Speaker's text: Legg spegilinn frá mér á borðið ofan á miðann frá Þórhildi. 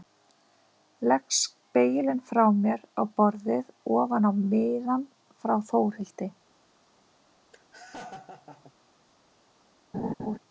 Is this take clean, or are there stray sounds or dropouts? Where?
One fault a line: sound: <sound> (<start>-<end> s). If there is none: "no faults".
sound: laugh (7.5-8.7 s)
sound: laugh (9.9-10.4 s)